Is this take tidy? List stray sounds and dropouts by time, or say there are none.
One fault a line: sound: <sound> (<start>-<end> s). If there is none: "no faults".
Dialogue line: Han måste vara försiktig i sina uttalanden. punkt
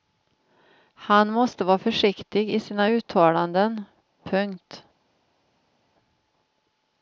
no faults